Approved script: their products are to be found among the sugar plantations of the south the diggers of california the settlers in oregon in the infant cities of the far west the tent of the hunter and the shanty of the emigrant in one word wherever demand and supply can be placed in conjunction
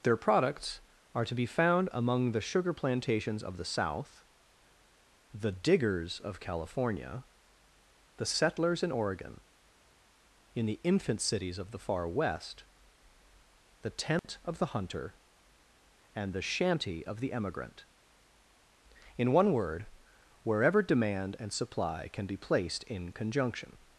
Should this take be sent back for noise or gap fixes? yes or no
yes